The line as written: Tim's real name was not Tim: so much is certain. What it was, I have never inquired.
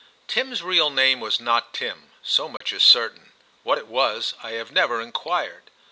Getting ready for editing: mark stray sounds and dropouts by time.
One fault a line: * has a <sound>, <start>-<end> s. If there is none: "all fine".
* has a dropout, 2.6-2.6 s